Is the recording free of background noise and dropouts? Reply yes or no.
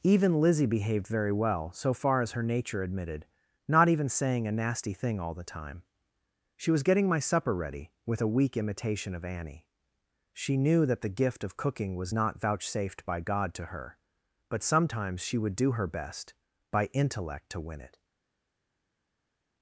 yes